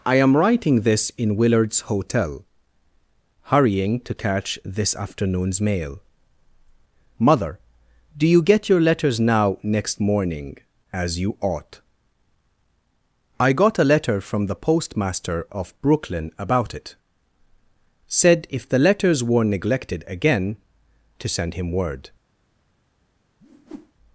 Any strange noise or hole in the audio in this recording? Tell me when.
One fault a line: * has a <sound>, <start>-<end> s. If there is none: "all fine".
* has a whoosh, 23.4-23.9 s